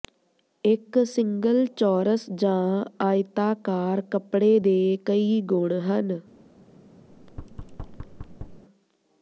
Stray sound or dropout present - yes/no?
yes